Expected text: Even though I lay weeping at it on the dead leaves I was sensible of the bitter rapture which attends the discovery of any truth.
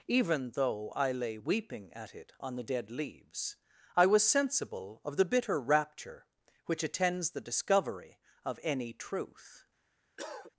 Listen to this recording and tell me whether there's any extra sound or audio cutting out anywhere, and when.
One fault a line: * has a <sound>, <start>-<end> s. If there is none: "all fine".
* has a cough, 10.2-10.5 s